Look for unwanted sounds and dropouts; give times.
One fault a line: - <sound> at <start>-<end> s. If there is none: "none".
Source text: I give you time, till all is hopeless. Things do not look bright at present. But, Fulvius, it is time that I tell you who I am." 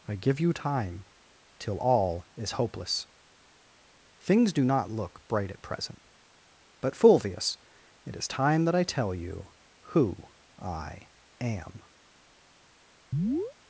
- chirp at 13.1-13.5 s